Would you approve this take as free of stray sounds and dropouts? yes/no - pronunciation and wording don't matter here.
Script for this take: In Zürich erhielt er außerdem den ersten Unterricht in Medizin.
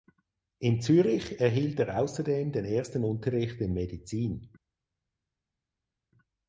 yes